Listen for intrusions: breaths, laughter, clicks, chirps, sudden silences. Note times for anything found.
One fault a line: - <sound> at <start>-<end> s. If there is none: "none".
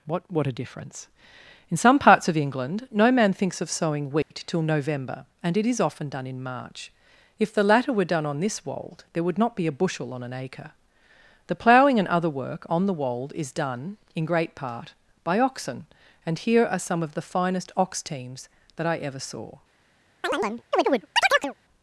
- dropout at 4.2-4.3 s
- chirp at 20.2-21.5 s